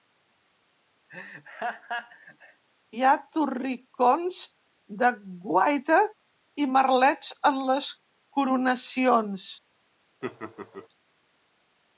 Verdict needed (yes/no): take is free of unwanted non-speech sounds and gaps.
no